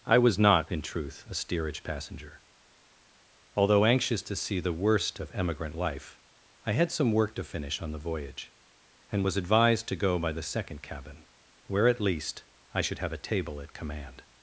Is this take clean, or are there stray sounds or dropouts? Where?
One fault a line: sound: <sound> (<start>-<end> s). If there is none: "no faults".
no faults